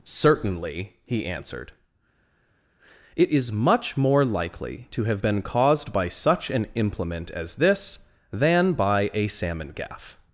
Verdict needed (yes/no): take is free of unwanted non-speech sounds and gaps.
yes